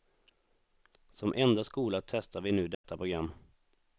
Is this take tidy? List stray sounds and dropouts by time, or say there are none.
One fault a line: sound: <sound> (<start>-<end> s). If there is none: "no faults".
sound: dropout (2.7-2.8 s)